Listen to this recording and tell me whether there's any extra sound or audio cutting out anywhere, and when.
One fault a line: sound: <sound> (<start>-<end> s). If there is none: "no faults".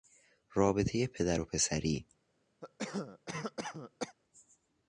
sound: cough (2.6-4.2 s)